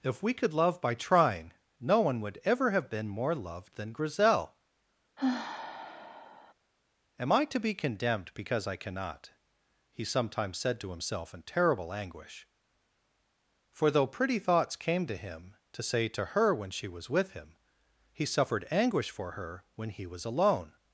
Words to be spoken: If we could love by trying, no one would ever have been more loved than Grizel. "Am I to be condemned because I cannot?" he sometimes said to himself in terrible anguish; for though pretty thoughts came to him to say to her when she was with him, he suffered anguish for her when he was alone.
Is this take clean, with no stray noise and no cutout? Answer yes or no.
no